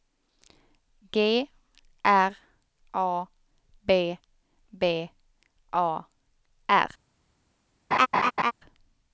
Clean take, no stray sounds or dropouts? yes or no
no